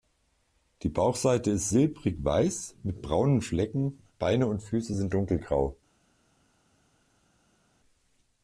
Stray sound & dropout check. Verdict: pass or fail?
pass